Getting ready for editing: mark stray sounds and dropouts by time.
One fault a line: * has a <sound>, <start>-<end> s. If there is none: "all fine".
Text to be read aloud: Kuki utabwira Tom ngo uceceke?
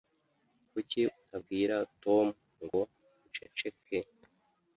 * has a dropout, 2.7-2.7 s